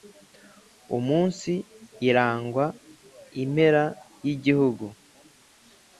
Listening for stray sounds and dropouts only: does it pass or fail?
pass